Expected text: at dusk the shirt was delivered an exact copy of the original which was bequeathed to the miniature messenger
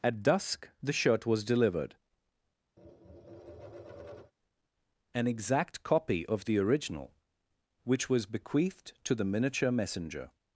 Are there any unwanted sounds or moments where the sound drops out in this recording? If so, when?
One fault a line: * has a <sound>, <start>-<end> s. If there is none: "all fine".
* has a tap, 2.8-4.3 s